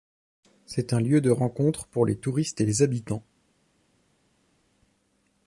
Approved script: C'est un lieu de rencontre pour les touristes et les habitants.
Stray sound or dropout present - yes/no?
no